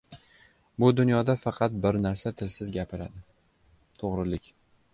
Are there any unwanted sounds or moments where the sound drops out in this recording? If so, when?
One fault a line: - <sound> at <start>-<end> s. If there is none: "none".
none